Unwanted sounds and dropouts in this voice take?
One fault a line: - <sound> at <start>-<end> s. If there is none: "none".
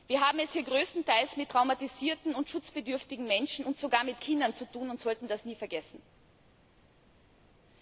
none